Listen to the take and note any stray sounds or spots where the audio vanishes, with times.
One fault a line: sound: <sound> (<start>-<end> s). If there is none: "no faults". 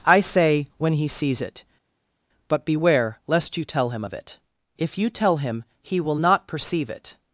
no faults